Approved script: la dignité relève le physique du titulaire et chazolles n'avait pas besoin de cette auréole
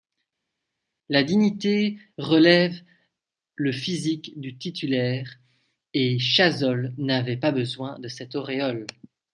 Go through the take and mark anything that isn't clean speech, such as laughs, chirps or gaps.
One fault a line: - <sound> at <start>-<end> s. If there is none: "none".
none